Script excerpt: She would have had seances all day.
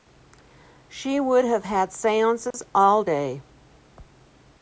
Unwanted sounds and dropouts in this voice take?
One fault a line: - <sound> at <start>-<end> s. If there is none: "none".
- dropout at 2.5-2.5 s